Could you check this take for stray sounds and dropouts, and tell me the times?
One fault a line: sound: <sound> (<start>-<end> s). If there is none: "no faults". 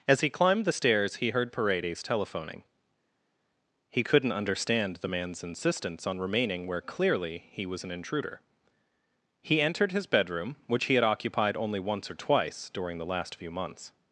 no faults